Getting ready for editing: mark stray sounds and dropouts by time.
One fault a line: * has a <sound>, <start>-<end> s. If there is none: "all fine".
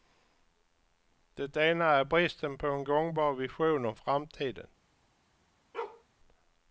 * has a bark, 5.7-6.0 s